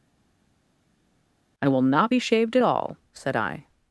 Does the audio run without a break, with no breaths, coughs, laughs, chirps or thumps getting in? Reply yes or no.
yes